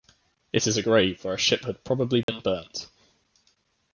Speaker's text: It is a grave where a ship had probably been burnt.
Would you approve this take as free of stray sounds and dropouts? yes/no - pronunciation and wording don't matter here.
no